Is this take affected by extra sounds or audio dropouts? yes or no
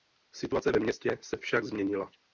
no